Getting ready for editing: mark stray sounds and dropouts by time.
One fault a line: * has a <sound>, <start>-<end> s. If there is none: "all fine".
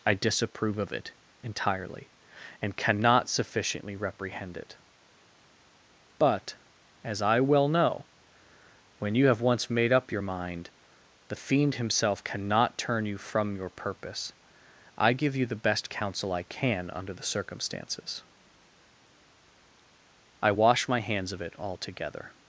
all fine